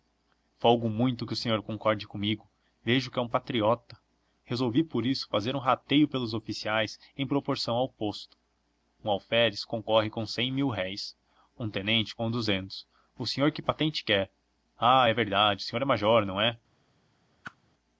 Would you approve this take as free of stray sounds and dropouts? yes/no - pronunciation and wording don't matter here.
no